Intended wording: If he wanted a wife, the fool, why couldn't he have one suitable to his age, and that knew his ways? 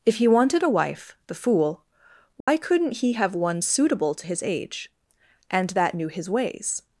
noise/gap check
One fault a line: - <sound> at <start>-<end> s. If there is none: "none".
- dropout at 2.4-2.5 s